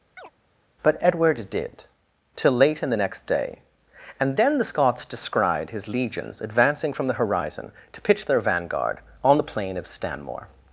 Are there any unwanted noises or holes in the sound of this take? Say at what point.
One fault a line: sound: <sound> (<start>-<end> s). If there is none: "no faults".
sound: chirp (0.2-0.3 s)